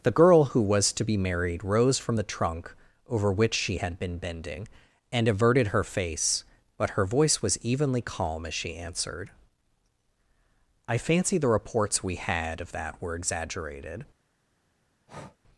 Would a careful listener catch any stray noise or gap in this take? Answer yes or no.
yes